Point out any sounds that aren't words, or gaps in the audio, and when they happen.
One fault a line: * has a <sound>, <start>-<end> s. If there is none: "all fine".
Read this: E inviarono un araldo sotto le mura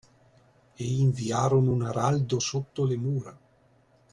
all fine